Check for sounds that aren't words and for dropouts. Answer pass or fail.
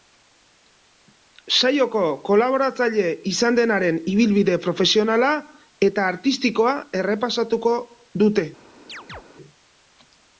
fail